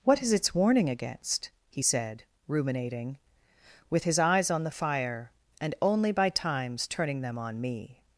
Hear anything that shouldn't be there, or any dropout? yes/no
no